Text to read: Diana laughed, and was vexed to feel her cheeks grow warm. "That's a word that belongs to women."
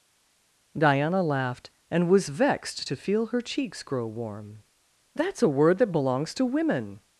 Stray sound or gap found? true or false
false